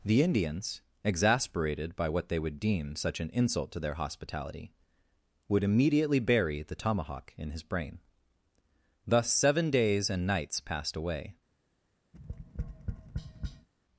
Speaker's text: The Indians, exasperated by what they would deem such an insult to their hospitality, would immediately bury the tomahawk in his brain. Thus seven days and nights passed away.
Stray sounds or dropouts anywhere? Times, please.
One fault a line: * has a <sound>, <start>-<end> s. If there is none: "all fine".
* has a tap, 12.1-13.7 s